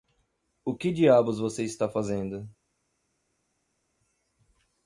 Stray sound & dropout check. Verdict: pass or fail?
pass